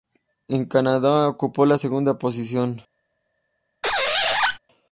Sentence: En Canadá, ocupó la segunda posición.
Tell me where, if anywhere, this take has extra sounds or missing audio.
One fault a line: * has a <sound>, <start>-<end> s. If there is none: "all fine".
* has a squeak, 3.8-4.6 s